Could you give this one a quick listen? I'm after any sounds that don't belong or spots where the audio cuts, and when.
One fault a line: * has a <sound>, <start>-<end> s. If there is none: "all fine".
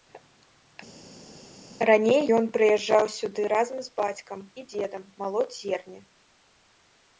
all fine